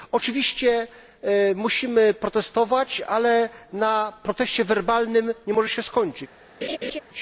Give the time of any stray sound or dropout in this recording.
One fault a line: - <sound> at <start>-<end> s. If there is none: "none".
- laugh at 6.6-7.0 s